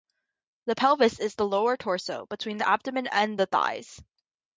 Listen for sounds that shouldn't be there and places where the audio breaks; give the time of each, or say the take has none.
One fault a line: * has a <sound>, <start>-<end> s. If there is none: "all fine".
all fine